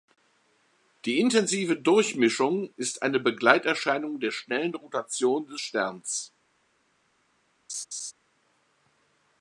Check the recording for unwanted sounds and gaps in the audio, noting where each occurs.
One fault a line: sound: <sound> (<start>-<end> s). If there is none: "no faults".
sound: laugh (7.7-8.1 s)